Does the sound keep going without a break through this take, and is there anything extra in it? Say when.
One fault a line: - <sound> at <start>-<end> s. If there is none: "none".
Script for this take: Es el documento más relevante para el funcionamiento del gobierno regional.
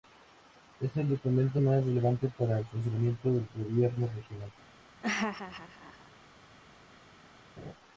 - laugh at 5.0-6.1 s
- laugh at 7.6-7.7 s